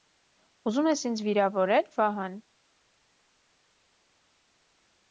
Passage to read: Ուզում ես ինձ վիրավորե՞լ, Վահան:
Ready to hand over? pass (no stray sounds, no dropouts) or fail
pass